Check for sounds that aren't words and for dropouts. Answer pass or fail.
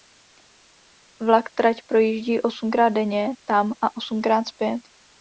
pass